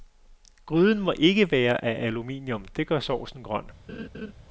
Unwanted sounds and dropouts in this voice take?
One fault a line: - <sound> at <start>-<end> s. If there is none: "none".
- laugh at 3.9-4.3 s